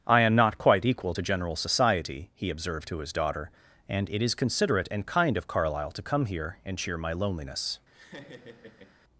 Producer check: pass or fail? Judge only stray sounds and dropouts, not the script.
fail